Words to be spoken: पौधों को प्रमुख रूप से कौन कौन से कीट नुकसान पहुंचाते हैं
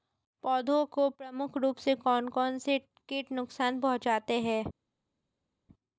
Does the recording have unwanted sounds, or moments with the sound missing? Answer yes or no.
no